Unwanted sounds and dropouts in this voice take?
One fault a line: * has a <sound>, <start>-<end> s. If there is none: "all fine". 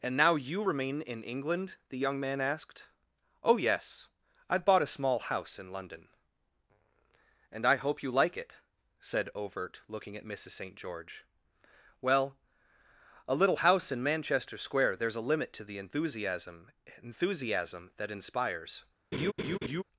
* has a laugh, 19.1-19.8 s